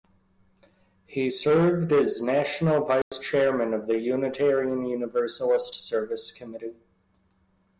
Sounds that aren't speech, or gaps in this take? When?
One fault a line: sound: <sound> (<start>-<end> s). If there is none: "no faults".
sound: dropout (3.0-3.1 s)